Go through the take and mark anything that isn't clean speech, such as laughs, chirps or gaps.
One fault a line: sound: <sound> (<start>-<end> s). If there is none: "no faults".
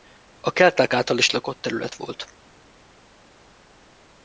no faults